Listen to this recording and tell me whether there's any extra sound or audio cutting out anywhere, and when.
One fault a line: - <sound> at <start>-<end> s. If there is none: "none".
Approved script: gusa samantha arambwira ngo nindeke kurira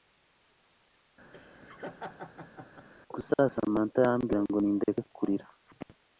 - laugh at 1.3-2.9 s